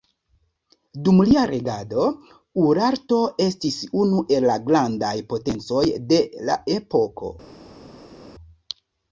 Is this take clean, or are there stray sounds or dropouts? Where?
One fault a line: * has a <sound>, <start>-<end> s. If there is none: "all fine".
all fine